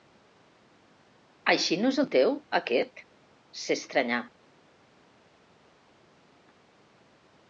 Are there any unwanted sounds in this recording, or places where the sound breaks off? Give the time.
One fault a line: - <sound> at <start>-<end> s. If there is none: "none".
none